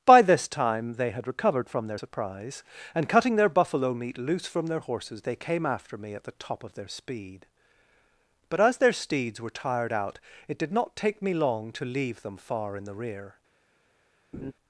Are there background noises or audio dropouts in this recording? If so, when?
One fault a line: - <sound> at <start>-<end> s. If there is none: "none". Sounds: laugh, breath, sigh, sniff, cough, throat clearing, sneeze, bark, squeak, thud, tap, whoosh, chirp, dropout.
- laugh at 14.3-14.5 s